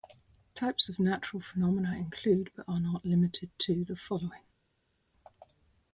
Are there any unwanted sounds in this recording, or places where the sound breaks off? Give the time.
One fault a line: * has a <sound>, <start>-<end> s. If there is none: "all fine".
all fine